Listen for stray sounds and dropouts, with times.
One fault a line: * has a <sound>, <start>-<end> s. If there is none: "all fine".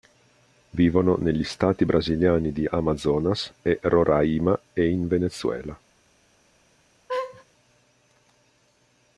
* has a laugh, 7.1-7.4 s